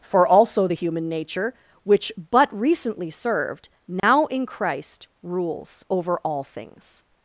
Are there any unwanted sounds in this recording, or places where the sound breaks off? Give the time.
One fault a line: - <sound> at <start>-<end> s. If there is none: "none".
- dropout at 4.0-4.0 s